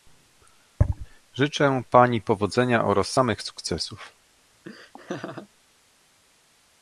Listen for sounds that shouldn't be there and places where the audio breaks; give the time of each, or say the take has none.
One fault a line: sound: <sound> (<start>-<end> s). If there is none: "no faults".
sound: laugh (4.6-5.5 s)